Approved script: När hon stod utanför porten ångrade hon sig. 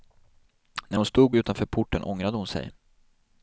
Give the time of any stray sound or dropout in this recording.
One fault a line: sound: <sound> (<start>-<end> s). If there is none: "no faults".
no faults